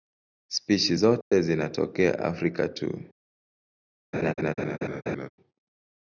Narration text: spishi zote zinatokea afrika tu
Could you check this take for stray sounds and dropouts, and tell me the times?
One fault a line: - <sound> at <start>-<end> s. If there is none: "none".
- dropout at 1.2-1.3 s
- laugh at 4.1-5.3 s